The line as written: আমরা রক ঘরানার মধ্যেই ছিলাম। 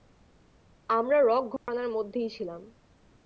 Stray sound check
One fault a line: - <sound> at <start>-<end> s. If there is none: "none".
- dropout at 1.6-1.7 s